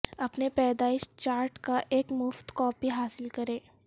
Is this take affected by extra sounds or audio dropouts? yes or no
no